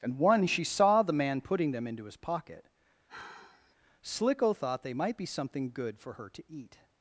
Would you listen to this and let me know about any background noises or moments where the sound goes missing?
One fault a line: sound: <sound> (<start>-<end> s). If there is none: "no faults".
sound: sigh (3.1-3.8 s)